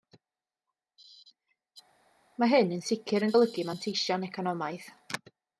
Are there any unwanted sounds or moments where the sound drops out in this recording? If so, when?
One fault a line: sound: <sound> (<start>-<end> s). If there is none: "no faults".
no faults